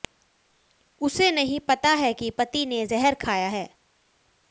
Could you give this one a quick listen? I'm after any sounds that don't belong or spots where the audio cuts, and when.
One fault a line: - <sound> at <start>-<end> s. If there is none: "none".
none